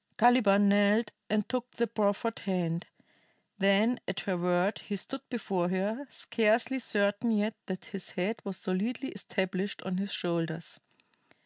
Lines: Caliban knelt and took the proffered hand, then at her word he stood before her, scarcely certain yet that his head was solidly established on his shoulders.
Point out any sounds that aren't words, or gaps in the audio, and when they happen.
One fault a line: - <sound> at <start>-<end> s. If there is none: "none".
none